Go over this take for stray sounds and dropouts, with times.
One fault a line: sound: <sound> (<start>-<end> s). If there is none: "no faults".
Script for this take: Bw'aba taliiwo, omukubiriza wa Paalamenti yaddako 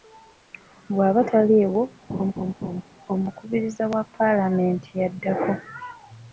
sound: laugh (2.1-2.8 s)